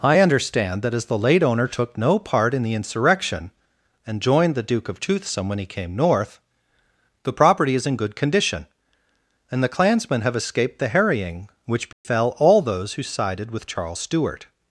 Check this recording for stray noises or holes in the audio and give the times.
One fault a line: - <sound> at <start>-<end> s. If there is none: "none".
- dropout at 11.9-12.0 s